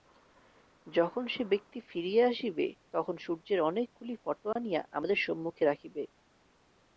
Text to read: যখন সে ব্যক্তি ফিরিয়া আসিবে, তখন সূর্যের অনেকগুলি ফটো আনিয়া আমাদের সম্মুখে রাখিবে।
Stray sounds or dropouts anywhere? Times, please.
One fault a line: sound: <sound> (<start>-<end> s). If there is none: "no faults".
sound: dropout (4.5-4.6 s)